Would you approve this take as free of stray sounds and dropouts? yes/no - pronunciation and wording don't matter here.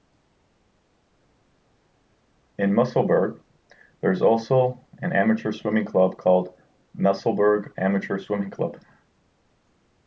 yes